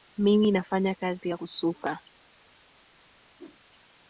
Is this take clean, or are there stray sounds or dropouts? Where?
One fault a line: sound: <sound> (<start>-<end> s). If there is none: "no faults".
sound: whoosh (3.4-3.6 s)